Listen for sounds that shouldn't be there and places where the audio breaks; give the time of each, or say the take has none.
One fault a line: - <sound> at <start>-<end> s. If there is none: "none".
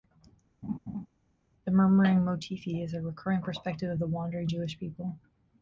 - laugh at 0.6-1.1 s